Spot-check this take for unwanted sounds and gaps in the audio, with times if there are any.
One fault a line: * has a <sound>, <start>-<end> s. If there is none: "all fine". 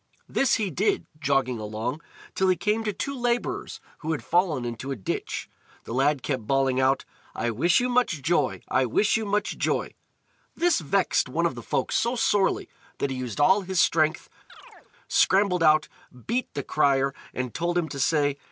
* has a chirp, 14.5-14.9 s